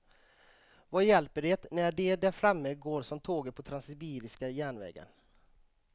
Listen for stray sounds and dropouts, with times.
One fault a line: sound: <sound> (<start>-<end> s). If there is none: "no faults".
no faults